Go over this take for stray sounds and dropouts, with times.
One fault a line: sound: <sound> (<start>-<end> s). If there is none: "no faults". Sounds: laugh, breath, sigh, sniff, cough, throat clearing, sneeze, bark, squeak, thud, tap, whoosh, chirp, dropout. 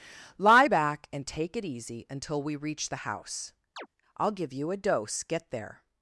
sound: chirp (3.8-3.9 s)